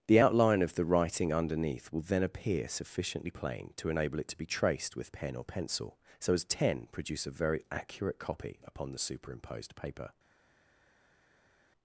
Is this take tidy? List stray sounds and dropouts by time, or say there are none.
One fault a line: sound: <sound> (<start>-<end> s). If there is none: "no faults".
no faults